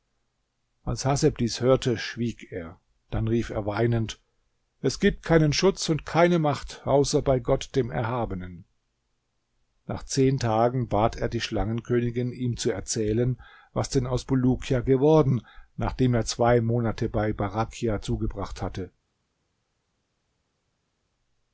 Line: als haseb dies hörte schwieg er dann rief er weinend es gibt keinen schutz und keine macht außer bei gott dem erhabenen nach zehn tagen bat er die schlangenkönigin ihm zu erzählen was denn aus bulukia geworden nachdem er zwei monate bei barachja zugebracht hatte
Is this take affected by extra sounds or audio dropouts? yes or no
no